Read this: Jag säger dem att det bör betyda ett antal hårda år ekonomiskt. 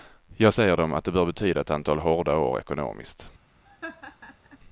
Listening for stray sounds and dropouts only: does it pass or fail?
fail